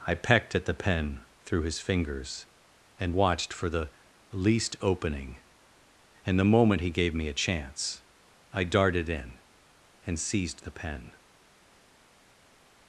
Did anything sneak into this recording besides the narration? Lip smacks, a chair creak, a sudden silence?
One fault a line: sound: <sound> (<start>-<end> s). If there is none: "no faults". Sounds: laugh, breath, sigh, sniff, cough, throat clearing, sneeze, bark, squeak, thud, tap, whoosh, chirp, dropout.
no faults